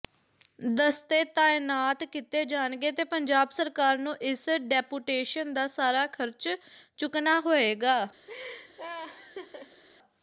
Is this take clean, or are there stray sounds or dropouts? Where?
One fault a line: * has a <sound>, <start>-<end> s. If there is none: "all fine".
* has a laugh, 8.3-9.8 s